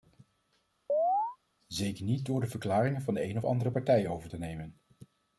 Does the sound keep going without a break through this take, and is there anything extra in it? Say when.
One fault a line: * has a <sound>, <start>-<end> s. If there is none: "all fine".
* has a chirp, 0.9-1.4 s